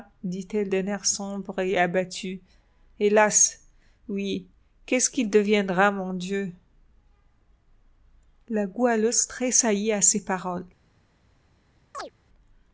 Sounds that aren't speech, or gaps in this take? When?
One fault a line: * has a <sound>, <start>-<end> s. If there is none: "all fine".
* has a chirp, 11.9-12.1 s